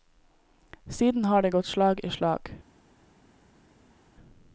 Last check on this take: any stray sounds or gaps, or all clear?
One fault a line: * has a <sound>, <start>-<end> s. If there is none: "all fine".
all fine